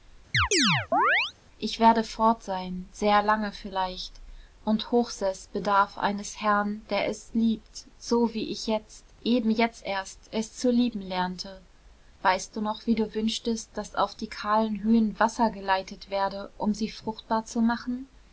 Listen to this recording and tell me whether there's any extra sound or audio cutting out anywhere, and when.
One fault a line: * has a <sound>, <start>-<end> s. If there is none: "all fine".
* has a chirp, 0.3-1.3 s